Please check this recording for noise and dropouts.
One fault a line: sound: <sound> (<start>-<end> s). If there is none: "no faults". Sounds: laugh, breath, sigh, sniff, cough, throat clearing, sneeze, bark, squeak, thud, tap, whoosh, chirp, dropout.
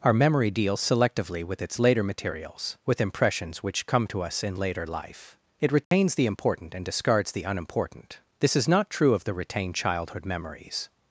sound: dropout (5.8-5.9 s)